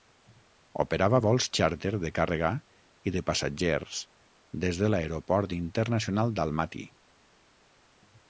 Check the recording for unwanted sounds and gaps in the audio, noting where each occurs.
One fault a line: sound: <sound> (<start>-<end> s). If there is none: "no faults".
no faults